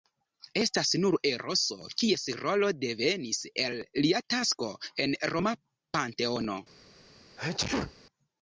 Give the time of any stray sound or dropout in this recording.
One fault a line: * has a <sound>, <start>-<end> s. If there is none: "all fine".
* has a sneeze, 7.4-7.9 s